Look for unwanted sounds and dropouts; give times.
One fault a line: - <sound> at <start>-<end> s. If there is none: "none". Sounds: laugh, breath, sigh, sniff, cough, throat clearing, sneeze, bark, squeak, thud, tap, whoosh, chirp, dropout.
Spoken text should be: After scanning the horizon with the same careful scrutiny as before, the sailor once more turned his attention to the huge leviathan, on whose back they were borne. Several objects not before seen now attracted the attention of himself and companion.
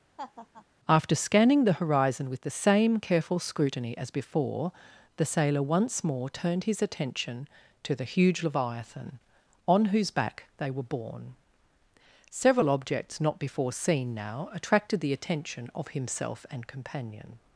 - laugh at 0.2-0.7 s